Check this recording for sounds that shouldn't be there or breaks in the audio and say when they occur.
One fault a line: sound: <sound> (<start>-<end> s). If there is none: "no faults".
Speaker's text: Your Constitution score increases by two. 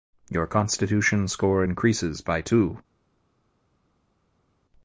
no faults